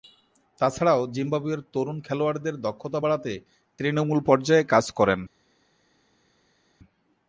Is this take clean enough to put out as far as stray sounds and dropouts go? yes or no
yes